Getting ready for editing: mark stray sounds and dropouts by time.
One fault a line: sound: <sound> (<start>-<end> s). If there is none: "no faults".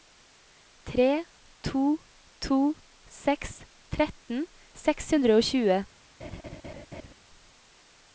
sound: laugh (6.2-7.1 s)